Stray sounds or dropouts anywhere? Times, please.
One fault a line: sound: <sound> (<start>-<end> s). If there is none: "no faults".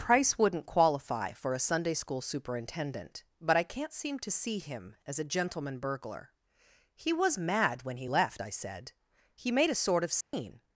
sound: dropout (10.2-10.3 s)